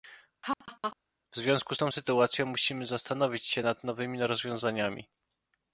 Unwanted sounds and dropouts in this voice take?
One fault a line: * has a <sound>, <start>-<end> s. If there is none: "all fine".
* has a laugh, 0.4-1.0 s